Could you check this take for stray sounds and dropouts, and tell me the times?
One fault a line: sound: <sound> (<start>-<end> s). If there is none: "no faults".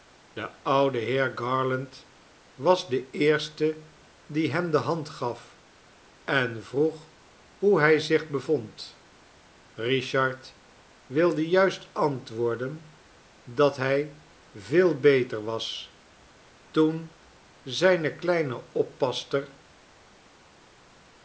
no faults